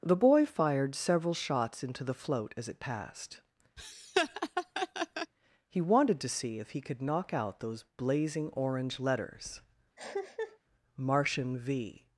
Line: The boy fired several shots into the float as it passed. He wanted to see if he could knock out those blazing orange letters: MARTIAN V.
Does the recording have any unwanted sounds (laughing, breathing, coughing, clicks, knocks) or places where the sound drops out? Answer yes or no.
yes